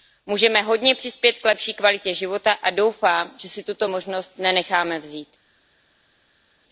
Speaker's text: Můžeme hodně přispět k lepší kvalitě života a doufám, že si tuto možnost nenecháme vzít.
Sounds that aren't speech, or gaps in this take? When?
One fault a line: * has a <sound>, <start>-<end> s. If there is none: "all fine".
all fine